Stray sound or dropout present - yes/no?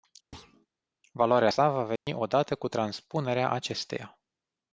yes